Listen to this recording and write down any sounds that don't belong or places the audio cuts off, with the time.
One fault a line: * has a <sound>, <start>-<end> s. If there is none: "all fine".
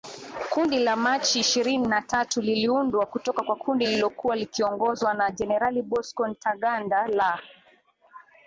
all fine